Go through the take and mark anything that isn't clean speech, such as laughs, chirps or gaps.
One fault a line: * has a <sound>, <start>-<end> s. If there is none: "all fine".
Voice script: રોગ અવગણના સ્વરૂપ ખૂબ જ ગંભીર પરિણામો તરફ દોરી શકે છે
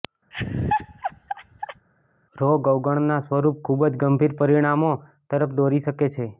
* has a laugh, 0.3-1.9 s